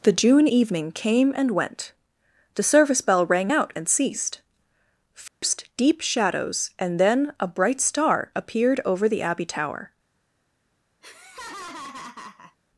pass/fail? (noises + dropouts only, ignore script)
fail